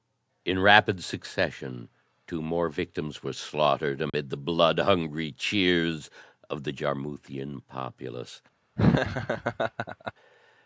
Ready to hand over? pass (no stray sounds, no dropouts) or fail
fail